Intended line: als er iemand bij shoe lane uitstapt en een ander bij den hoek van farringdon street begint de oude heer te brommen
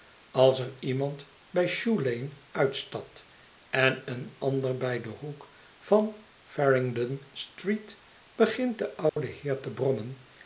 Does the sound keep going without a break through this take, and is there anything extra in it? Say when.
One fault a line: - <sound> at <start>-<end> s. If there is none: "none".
- dropout at 9.1-9.2 s